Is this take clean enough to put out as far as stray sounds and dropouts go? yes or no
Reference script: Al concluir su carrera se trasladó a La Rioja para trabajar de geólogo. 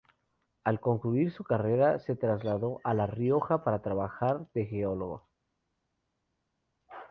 yes